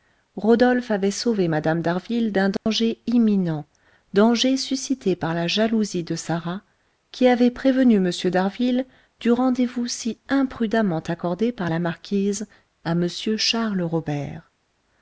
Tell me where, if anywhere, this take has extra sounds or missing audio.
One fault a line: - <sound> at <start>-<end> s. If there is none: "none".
- dropout at 2.6-2.7 s